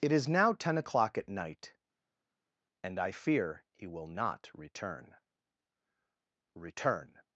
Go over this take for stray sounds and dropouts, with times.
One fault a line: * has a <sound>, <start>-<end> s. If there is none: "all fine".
all fine